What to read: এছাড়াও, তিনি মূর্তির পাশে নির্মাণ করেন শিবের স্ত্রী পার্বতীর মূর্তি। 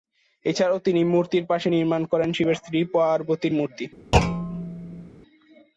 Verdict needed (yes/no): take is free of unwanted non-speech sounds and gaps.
no